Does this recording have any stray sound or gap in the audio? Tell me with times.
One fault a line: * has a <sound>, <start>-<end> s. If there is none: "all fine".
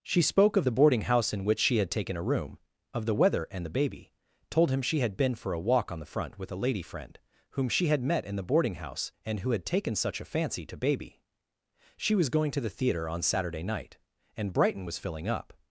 all fine